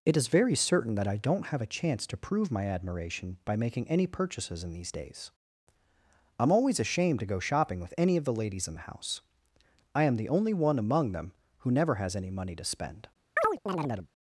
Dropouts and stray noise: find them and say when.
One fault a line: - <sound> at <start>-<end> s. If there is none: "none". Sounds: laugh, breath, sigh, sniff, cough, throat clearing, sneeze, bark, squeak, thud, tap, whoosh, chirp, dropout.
- chirp at 13.4-14.1 s